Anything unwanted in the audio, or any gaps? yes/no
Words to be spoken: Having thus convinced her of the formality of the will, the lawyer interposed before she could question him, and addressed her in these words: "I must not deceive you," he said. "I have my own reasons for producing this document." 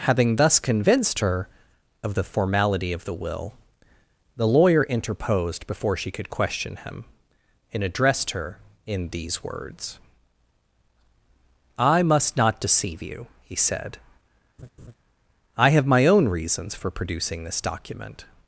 yes